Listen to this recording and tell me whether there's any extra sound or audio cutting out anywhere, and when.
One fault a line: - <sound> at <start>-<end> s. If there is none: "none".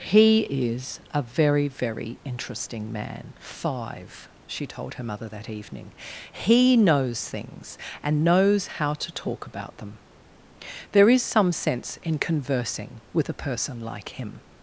none